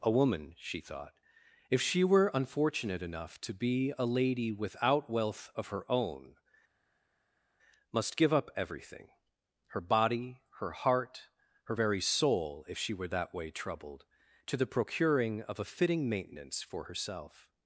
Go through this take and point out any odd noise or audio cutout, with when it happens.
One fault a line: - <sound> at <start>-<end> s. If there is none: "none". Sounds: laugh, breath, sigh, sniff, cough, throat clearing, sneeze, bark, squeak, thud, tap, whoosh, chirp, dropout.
none